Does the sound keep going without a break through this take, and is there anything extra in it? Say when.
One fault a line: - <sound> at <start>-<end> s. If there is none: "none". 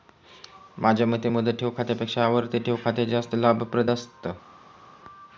none